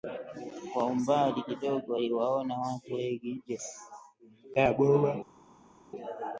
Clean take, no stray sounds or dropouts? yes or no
yes